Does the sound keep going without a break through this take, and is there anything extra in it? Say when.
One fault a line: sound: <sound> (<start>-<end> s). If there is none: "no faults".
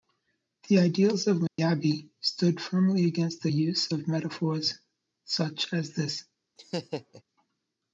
sound: dropout (1.5-1.6 s)
sound: laugh (6.6-7.2 s)